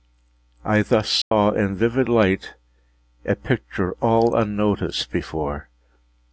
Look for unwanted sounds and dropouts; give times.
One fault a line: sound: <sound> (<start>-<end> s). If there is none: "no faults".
sound: dropout (1.2-1.3 s)